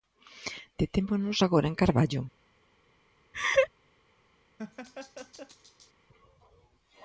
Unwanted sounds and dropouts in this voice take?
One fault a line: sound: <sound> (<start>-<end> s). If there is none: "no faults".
sound: laugh (3.3-3.7 s)
sound: laugh (4.6-5.9 s)